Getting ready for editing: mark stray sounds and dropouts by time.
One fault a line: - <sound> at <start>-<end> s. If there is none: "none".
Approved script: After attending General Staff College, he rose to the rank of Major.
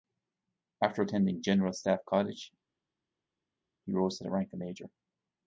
none